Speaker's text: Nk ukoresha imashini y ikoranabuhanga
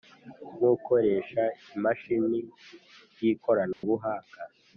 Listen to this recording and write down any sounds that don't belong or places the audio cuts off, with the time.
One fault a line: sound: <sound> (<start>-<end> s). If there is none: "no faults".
sound: dropout (3.7-3.8 s)